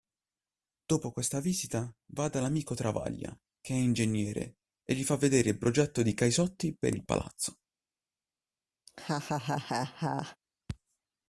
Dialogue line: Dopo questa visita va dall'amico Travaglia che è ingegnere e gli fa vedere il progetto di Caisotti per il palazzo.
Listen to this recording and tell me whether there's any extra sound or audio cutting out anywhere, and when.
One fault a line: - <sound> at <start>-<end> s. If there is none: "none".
- laugh at 8.9-10.4 s